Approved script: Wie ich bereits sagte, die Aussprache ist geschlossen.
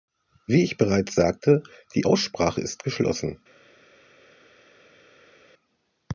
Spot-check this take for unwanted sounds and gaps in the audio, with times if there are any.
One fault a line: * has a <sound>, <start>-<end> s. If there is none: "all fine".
all fine